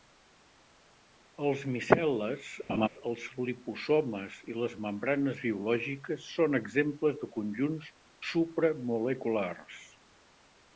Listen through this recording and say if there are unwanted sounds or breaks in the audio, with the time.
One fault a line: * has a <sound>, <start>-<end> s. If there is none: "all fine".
* has a laugh, 2.7-2.9 s